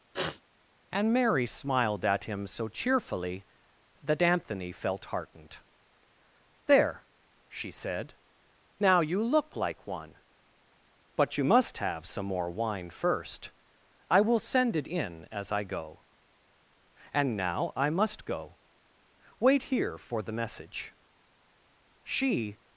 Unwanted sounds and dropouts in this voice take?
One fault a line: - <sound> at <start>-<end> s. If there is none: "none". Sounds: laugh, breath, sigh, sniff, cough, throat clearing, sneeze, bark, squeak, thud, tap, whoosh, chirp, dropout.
- sniff at 0.1-0.4 s